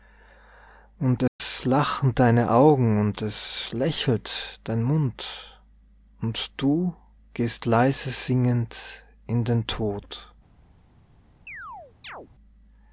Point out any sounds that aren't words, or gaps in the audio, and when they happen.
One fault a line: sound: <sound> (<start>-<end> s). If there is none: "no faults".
sound: dropout (1.3-1.4 s)
sound: chirp (11.5-12.3 s)